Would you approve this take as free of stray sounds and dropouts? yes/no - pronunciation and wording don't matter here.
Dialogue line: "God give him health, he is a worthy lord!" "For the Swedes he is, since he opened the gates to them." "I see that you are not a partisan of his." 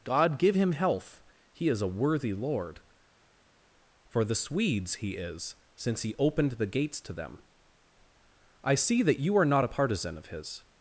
yes